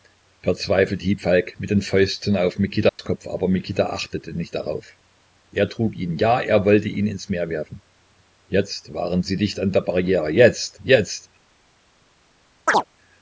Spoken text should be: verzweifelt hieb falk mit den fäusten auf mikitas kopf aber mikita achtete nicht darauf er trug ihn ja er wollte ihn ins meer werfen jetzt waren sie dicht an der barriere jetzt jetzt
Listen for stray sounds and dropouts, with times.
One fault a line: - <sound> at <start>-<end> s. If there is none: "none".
- dropout at 2.9-3.0 s
- chirp at 12.7-12.8 s